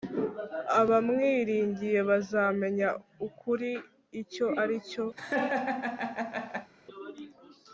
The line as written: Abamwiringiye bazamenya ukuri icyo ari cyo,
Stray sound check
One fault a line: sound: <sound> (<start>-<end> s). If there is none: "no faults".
sound: laugh (5.2-6.7 s)